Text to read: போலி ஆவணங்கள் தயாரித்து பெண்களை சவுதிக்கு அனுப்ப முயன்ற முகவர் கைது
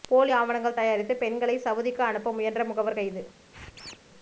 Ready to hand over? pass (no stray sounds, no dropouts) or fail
fail